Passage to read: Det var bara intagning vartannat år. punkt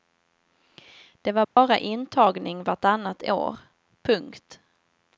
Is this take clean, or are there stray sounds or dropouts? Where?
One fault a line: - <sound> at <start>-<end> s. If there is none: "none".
- dropout at 1.4-1.6 s